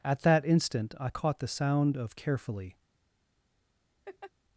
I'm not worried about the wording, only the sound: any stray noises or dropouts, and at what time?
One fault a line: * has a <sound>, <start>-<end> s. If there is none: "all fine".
* has a laugh, 4.1-4.3 s